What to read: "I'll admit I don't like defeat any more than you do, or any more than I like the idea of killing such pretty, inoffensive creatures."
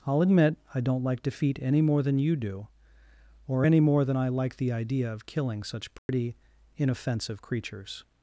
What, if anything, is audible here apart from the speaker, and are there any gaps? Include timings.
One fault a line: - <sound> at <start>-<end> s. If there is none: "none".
- dropout at 6.0-6.1 s